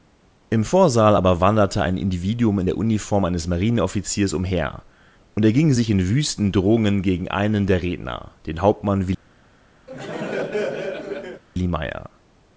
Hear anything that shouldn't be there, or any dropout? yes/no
yes